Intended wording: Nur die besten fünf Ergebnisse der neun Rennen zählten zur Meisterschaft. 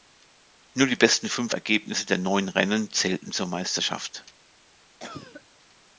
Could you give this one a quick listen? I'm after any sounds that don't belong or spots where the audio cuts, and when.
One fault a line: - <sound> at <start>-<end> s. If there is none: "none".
- cough at 5.0-5.5 s